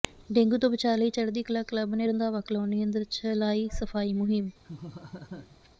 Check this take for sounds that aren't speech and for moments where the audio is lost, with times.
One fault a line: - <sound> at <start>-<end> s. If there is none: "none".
- laugh at 4.6-5.7 s